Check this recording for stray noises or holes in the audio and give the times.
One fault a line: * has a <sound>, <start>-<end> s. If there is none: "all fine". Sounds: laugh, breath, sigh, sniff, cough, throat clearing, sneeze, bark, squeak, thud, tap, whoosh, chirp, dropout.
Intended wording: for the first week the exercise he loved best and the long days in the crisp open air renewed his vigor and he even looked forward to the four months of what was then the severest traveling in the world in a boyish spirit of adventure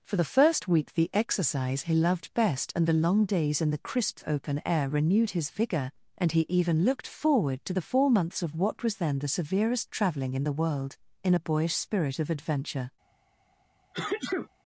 * has a sneeze, 13.9-14.5 s